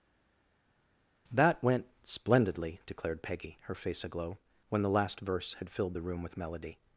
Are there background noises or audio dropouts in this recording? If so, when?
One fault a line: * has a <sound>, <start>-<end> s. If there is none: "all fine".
all fine